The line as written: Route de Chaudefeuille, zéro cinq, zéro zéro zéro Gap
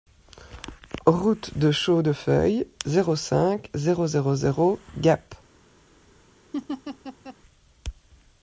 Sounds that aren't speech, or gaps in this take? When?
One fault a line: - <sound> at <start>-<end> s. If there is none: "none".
- laugh at 6.5-7.4 s